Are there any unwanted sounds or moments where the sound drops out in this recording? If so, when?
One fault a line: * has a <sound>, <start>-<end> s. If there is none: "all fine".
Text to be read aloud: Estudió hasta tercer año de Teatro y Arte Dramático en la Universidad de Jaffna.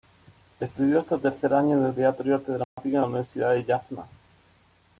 * has a dropout, 2.6-2.8 s